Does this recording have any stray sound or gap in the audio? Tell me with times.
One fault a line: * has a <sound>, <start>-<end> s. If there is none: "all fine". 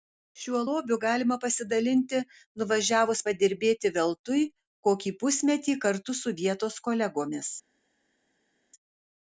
all fine